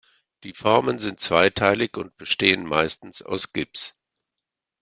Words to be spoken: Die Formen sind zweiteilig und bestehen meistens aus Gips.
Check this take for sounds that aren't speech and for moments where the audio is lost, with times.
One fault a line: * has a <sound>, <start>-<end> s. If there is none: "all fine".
all fine